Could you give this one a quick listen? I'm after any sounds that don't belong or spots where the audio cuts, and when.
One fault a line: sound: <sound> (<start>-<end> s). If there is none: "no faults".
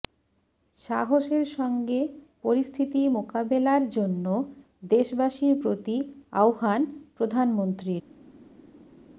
no faults